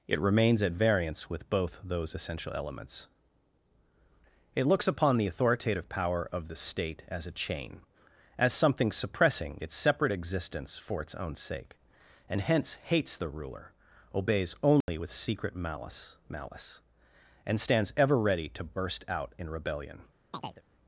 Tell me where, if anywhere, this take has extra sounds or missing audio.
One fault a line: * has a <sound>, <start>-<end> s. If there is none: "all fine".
* has a dropout, 14.8-14.9 s
* has a chirp, 20.3-20.6 s